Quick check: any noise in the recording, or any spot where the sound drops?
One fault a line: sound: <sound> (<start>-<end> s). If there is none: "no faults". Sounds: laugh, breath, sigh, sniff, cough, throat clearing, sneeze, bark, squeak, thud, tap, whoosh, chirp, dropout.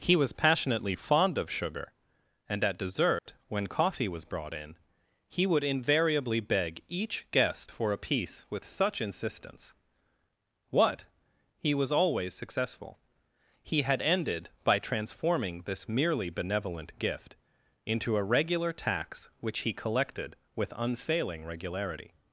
sound: dropout (3.2-3.3 s)